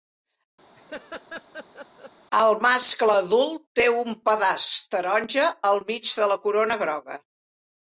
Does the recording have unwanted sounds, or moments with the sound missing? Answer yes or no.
yes